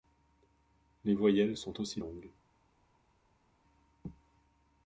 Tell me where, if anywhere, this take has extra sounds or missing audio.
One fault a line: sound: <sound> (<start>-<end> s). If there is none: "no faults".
no faults